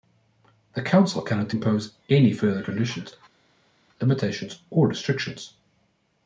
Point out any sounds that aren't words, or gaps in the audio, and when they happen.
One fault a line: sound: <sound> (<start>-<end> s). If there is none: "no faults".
no faults